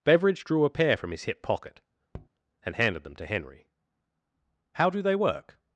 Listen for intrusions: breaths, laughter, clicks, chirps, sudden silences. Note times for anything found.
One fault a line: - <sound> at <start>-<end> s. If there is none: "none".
- tap at 2.1-2.3 s